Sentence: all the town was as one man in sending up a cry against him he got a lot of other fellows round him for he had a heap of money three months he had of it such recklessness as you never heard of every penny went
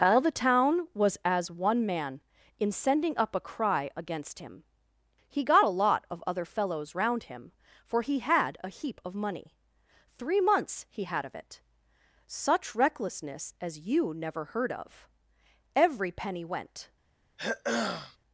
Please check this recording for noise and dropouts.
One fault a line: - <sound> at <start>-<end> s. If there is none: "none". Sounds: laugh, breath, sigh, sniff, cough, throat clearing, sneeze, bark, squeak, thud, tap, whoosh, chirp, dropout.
- throat clearing at 17.4-18.2 s